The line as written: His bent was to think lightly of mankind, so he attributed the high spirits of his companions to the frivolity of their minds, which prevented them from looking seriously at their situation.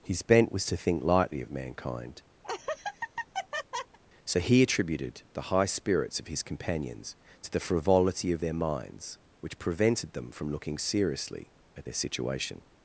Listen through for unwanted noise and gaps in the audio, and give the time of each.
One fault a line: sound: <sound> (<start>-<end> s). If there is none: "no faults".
sound: laugh (2.4-4.0 s)